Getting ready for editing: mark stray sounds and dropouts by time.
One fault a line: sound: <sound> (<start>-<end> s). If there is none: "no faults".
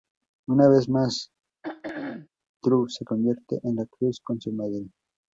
sound: throat clearing (1.6-2.3 s)